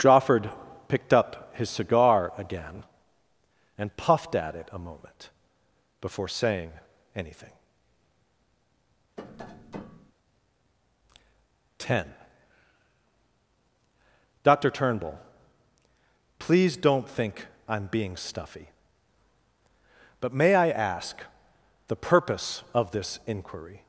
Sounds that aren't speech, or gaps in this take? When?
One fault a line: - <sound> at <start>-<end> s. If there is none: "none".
- tap at 9.2-10.1 s